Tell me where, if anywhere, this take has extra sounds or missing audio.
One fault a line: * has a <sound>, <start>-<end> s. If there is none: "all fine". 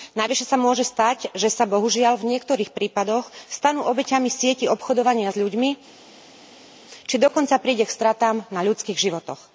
all fine